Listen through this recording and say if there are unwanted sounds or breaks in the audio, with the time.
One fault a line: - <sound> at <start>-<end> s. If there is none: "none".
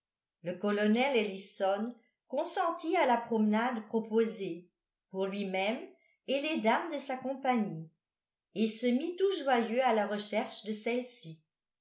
none